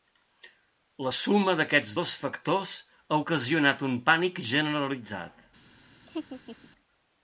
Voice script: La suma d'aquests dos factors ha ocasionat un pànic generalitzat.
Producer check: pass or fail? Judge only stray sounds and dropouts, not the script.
fail